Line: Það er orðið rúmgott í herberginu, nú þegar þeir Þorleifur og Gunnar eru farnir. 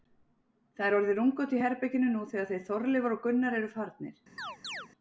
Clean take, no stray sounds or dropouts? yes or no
no